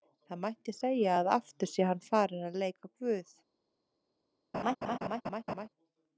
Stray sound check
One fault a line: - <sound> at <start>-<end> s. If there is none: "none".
- laugh at 4.5-5.7 s